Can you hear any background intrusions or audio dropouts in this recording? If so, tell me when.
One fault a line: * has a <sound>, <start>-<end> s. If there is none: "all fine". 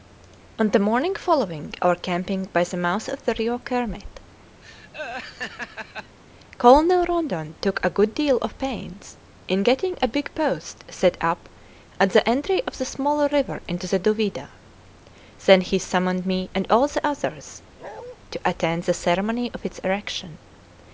* has a laugh, 4.6-6.2 s
* has a bark, 17.8-18.2 s